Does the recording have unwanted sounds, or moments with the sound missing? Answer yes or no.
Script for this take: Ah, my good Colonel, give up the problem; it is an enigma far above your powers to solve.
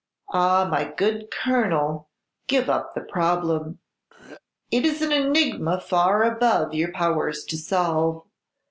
yes